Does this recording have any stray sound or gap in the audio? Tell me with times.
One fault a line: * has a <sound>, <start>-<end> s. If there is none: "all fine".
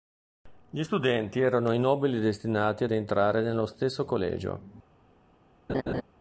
* has a laugh, 5.7-6.0 s